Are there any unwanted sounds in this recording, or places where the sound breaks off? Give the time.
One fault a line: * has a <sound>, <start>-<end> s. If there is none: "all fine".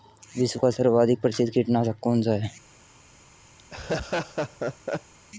* has a laugh, 3.6-5.1 s